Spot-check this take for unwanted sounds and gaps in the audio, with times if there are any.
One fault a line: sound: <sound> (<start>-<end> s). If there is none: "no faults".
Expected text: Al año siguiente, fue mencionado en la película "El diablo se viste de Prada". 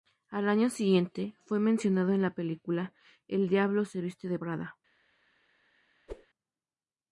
sound: whoosh (6.1-6.3 s)